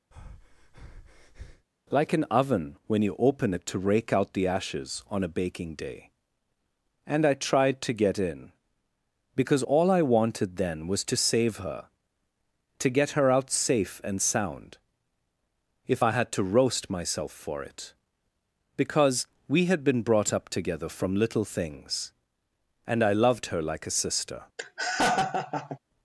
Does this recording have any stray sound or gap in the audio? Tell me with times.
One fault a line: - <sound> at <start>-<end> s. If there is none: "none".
- breath at 0.1-1.7 s
- laugh at 24.6-25.8 s